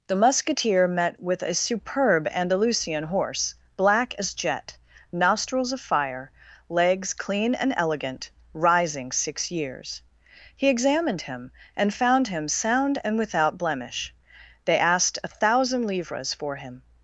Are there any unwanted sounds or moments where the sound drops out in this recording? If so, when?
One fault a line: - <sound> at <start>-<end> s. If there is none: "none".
none